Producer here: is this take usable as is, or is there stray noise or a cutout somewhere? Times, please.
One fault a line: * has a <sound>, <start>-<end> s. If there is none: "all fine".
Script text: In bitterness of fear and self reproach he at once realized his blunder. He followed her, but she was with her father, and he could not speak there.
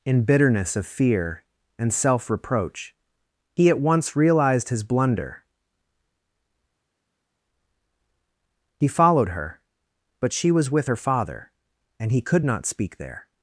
all fine